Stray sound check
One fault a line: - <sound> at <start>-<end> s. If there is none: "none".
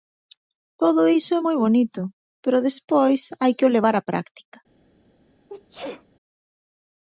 - sneeze at 5.5-6.0 s